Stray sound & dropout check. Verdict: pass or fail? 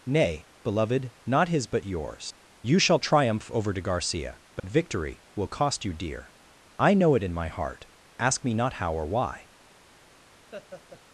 fail